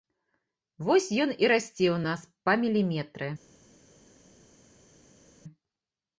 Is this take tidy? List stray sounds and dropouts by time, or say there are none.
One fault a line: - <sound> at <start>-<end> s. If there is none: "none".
none